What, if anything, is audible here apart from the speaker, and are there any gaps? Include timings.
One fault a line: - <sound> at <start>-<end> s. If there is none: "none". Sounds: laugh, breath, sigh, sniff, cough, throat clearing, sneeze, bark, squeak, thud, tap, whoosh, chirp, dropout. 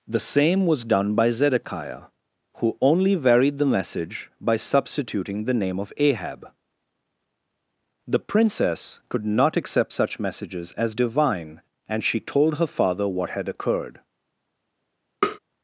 - tap at 15.2-15.4 s